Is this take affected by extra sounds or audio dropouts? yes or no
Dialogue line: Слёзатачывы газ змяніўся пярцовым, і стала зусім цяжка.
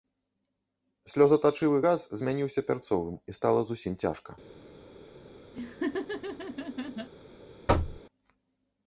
yes